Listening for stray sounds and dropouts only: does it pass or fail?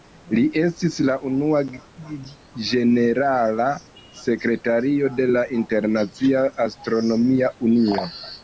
pass